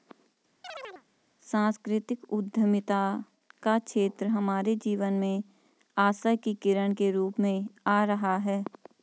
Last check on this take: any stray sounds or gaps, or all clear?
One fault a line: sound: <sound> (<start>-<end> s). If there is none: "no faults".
sound: chirp (0.6-1.0 s)